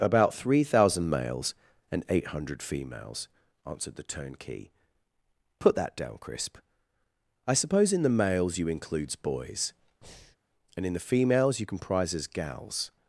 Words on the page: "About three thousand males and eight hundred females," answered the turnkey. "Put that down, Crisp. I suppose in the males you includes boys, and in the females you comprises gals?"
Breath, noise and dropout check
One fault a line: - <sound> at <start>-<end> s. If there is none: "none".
- breath at 10.0-10.4 s